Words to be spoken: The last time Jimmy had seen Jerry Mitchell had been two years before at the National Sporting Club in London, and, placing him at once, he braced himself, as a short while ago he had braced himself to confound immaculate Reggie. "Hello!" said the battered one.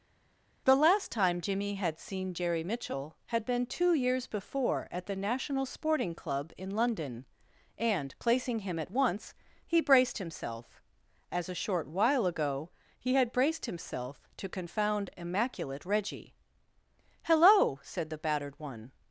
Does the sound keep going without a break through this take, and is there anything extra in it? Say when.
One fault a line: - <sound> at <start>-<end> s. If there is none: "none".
none